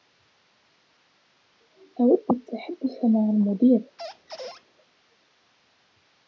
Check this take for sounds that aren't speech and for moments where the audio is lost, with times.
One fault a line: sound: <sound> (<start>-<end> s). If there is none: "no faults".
sound: squeak (4.0-4.7 s)